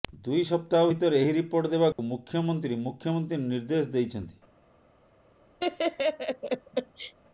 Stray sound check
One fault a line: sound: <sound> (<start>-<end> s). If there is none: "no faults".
sound: dropout (1.9-2.0 s)
sound: laugh (5.6-7.1 s)